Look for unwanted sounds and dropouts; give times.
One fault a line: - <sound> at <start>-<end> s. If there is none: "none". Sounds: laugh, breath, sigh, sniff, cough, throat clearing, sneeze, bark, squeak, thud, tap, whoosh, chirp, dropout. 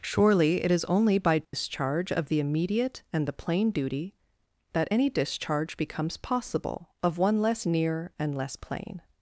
- dropout at 1.4-1.5 s